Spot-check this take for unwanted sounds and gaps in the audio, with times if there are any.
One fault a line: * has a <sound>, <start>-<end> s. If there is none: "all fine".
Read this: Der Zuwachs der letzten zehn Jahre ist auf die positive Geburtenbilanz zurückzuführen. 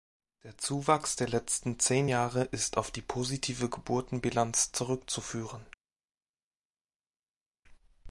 all fine